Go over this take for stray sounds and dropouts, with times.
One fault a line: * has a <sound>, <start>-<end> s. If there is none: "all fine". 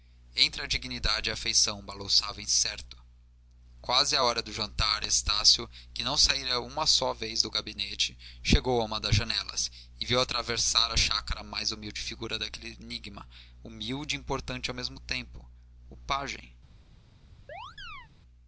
* has a chirp, 17.5-18.1 s